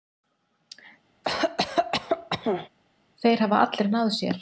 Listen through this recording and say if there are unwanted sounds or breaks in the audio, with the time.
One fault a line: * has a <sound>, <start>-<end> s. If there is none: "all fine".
* has a cough, 1.2-2.7 s